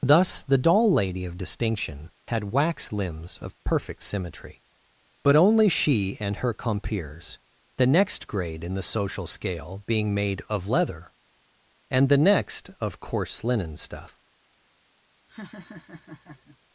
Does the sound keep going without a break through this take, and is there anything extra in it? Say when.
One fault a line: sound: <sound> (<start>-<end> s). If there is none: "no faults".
sound: laugh (15.3-16.6 s)